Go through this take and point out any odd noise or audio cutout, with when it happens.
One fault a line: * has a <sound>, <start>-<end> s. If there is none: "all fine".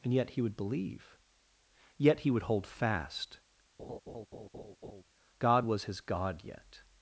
* has a laugh, 3.8-5.0 s